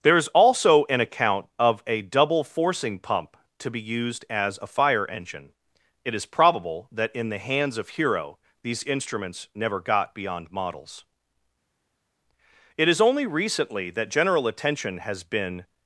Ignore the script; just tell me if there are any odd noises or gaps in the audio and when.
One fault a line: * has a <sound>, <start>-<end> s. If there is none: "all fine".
all fine